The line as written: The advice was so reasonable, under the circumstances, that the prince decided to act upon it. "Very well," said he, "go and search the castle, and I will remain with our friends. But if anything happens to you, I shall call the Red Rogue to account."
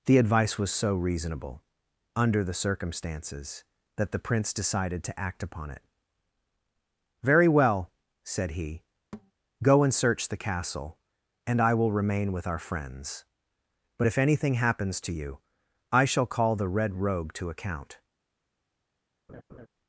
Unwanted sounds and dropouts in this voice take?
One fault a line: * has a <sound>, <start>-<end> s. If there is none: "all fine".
* has a thud, 9.1-9.3 s
* has a laugh, 19.3-19.7 s